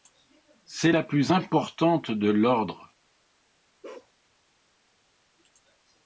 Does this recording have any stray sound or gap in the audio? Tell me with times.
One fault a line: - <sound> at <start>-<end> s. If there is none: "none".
- bark at 3.8-4.1 s